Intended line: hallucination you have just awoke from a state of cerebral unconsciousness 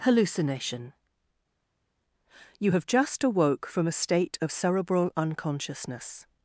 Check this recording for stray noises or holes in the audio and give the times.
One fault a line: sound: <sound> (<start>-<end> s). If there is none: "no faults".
no faults